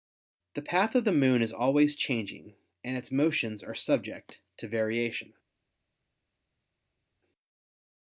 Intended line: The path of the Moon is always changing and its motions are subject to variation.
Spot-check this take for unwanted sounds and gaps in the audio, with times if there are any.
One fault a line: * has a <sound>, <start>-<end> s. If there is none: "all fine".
all fine